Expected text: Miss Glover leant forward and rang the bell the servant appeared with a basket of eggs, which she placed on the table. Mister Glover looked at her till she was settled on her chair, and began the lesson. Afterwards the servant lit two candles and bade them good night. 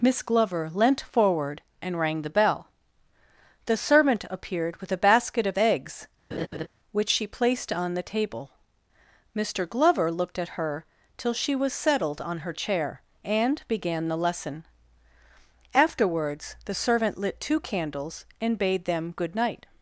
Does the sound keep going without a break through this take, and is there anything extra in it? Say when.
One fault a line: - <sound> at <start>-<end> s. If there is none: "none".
- laugh at 6.3-6.7 s